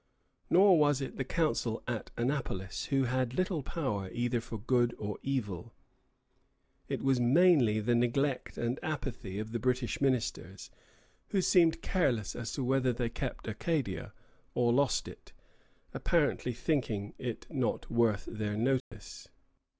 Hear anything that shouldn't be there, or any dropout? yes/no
yes